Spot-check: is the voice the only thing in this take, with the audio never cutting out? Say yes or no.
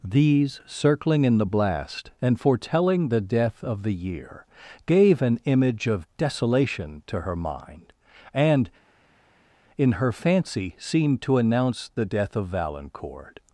yes